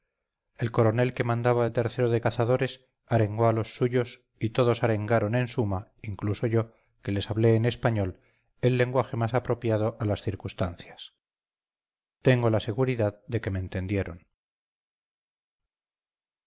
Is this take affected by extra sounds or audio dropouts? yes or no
no